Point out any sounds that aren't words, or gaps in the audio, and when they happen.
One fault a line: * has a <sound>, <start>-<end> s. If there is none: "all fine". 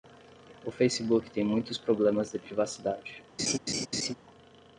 * has a laugh, 3.4-4.1 s